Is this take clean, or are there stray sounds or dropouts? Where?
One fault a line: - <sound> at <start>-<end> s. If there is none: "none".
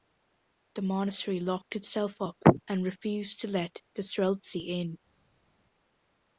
none